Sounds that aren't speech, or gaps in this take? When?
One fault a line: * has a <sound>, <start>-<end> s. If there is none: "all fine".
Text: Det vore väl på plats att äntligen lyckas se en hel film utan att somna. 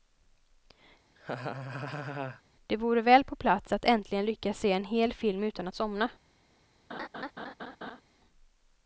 * has a laugh, 1.2-2.4 s
* has a laugh, 6.9-8.0 s